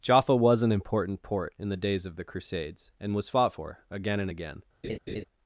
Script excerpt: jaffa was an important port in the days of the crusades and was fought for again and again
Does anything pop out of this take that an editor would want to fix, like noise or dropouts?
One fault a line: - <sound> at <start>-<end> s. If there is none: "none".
- laugh at 4.8-5.2 s